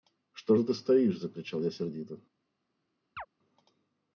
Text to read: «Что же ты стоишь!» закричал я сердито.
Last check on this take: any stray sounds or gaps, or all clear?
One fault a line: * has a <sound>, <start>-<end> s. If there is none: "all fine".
* has a chirp, 3.2-3.3 s